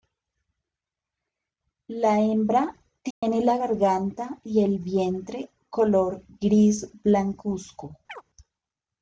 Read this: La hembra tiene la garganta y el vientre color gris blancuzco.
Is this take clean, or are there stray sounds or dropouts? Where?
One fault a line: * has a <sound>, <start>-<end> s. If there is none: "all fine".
* has a dropout, 3.1-3.2 s
* has a chirp, 8.1-8.2 s